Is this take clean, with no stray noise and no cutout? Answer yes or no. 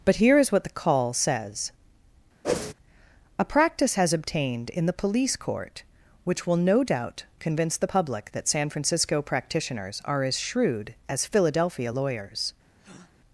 no